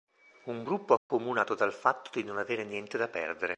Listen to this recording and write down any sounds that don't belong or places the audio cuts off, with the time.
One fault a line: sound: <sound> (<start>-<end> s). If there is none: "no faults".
sound: dropout (1.0-1.1 s)